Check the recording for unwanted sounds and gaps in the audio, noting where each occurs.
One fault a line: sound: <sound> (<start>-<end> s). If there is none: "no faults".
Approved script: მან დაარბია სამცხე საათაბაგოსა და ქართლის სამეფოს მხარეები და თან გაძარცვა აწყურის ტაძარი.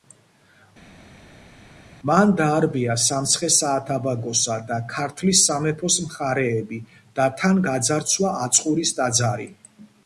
no faults